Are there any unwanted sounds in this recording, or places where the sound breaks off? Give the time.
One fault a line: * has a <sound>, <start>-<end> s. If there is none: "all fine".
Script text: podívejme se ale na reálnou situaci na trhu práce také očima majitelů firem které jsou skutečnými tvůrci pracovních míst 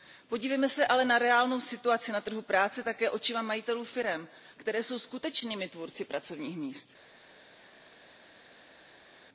all fine